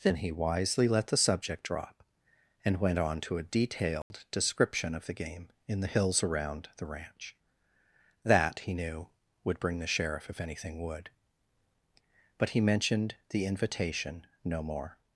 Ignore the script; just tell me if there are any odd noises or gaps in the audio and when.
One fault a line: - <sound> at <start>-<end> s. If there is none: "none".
- dropout at 4.0-4.1 s